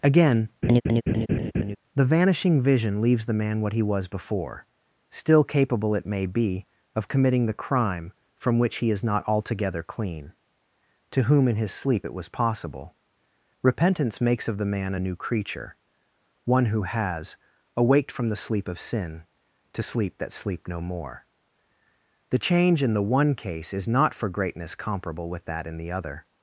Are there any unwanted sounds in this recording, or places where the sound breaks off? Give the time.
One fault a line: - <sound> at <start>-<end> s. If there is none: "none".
- laugh at 0.6-1.8 s